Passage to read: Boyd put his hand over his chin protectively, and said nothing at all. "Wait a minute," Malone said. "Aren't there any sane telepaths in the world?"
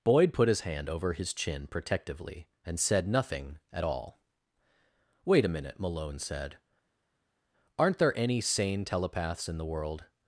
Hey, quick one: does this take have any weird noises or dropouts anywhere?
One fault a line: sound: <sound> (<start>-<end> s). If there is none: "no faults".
no faults